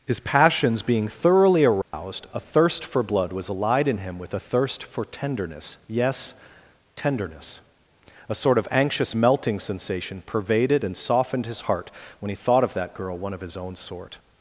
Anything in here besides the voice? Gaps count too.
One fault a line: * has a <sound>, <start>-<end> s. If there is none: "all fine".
* has a dropout, 1.8-1.9 s